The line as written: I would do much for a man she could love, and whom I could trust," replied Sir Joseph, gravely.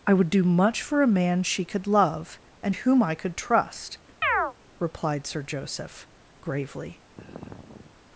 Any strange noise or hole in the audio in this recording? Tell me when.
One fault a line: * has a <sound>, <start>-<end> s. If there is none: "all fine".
* has a chirp, 4.2-4.5 s
* has a sigh, 7.1-8.0 s